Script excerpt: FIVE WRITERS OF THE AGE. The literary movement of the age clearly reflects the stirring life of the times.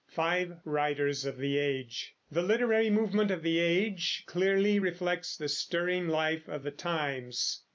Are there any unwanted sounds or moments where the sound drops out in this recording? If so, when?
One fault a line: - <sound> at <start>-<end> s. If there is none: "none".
none